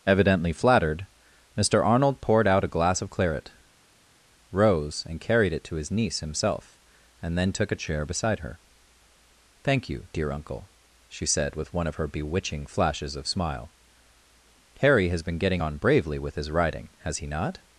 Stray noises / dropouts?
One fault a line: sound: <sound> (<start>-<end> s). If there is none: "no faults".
no faults